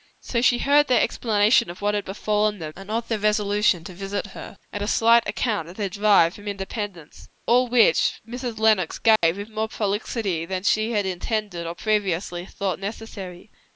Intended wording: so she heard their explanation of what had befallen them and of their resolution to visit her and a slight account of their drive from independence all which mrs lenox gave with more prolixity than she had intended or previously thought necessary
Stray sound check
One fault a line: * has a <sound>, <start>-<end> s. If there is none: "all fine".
* has a dropout, 9.2-9.2 s